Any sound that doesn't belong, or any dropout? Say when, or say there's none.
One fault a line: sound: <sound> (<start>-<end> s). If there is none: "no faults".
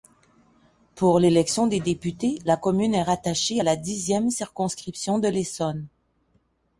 no faults